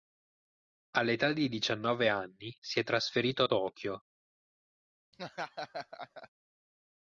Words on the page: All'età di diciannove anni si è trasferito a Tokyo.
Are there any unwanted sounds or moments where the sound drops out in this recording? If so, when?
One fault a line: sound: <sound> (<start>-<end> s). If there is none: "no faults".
sound: laugh (5.1-6.3 s)